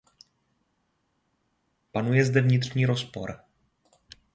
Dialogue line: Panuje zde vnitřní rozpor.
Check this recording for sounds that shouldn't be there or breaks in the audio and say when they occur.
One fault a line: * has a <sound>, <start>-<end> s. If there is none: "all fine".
all fine